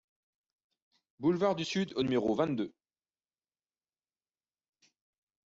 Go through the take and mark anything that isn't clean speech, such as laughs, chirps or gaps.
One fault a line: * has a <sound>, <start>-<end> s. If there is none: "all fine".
all fine